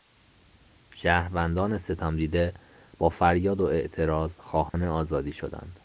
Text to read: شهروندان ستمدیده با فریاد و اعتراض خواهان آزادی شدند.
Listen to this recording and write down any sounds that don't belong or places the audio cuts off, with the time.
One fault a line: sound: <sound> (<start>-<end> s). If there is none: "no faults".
sound: dropout (4.7-4.7 s)